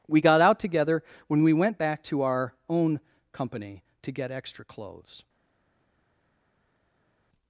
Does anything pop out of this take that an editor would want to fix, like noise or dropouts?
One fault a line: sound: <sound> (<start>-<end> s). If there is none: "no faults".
no faults